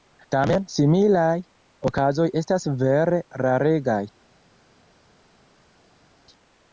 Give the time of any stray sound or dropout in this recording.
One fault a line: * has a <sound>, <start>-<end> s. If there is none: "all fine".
all fine